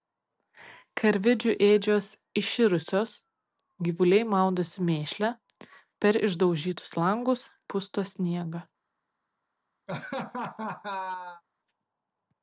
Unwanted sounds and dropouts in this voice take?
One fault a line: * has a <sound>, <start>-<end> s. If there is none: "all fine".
* has a laugh, 9.9-11.4 s